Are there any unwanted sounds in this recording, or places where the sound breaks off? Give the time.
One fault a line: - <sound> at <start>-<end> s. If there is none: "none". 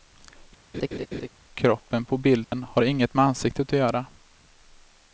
- laugh at 0.7-1.3 s
- dropout at 2.4-2.5 s